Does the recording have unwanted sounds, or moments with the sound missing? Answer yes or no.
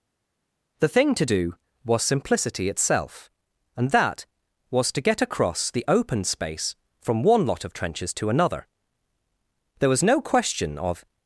no